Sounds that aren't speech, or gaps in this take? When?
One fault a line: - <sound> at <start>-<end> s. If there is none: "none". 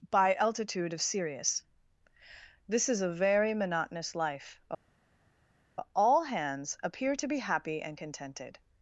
none